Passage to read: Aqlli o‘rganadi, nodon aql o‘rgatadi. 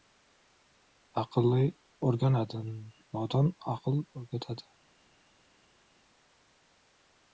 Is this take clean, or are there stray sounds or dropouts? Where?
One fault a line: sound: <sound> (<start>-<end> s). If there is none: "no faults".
no faults